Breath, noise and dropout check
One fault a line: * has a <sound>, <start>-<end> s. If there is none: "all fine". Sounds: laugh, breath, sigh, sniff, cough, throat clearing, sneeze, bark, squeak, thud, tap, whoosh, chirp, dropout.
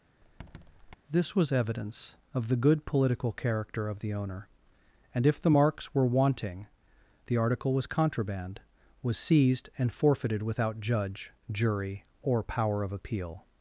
* has a squeak, 0.2-1.0 s